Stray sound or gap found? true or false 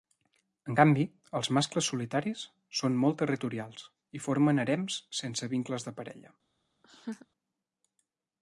true